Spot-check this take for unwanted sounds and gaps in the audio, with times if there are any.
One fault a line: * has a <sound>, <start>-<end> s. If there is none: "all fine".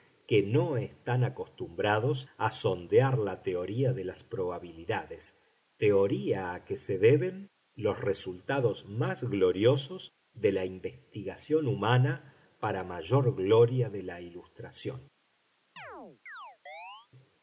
* has a chirp, 15.8-17.1 s